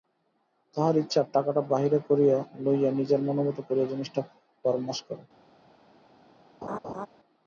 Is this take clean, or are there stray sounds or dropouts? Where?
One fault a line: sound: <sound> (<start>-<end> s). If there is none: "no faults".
sound: laugh (6.6-7.1 s)